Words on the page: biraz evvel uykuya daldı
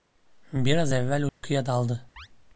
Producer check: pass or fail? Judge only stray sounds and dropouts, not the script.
fail